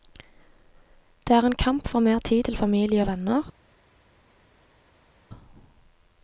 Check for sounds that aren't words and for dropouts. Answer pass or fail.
pass